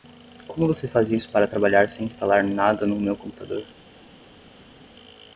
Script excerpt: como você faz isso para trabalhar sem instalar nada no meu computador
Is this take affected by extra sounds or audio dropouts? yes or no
no